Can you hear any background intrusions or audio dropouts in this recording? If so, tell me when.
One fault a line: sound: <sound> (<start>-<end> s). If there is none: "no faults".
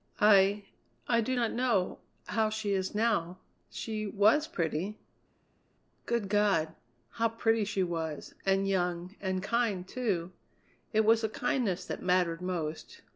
no faults